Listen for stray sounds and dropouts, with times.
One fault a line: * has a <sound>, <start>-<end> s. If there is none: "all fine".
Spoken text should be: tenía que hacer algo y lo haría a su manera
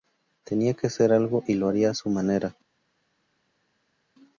all fine